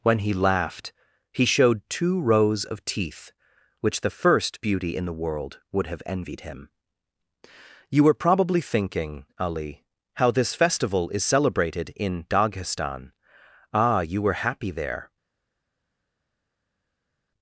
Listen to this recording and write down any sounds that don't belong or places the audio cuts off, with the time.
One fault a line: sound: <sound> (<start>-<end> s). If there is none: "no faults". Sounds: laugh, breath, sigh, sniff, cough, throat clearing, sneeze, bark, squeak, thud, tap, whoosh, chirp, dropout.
no faults